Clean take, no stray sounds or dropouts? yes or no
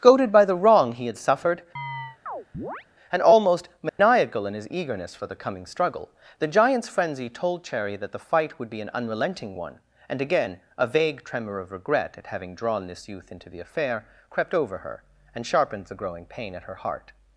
no